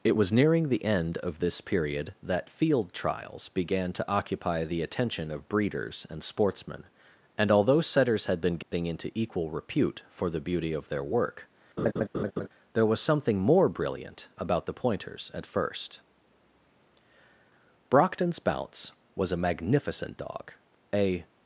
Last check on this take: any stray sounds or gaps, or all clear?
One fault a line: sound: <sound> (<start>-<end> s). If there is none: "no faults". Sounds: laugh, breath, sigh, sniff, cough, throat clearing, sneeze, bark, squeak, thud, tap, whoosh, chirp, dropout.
sound: dropout (8.6-8.7 s)
sound: laugh (11.8-12.5 s)